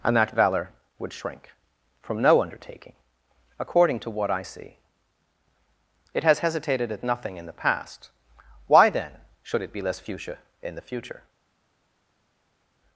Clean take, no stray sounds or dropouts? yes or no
yes